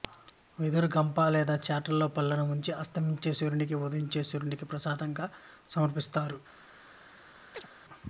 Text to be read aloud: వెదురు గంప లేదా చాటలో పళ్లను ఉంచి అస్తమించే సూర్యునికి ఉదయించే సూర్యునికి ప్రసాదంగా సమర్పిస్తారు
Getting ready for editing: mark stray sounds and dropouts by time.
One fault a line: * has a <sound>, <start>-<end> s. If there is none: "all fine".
* has a chirp, 7.5-7.7 s